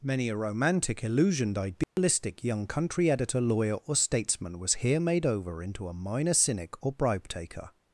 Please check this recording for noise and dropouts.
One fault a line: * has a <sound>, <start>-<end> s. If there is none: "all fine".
* has a dropout, 1.8-2.0 s